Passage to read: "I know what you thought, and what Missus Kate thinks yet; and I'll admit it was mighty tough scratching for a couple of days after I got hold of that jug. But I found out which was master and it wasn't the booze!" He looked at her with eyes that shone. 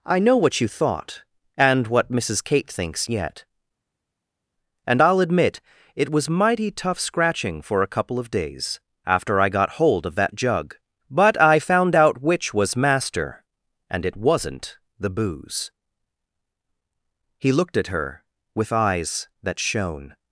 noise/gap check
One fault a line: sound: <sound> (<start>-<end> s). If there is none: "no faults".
no faults